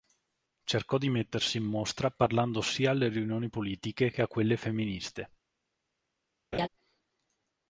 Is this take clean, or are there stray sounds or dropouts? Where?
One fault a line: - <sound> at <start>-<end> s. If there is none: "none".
- laugh at 6.5-6.7 s